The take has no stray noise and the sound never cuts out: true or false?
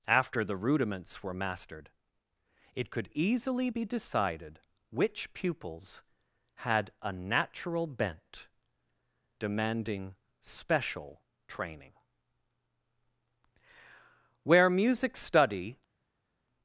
true